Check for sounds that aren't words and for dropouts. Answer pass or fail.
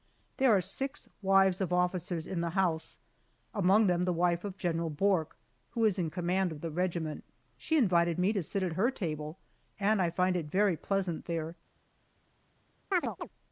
fail